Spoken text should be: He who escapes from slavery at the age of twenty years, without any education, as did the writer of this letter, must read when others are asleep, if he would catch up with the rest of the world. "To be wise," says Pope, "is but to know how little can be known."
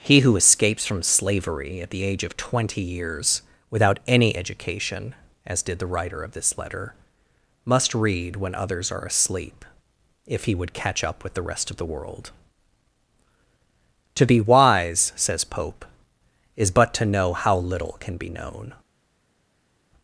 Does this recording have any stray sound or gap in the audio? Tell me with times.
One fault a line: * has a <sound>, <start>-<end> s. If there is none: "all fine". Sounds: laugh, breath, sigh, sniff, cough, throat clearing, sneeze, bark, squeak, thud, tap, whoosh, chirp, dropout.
all fine